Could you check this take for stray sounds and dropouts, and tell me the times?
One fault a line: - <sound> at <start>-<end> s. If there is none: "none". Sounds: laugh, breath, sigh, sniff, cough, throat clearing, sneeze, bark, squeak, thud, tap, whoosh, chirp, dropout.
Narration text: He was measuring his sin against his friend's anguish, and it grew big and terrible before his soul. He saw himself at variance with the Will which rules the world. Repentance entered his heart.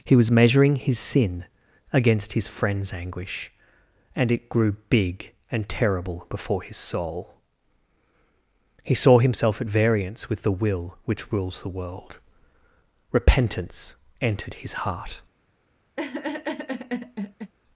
- laugh at 16.0-17.5 s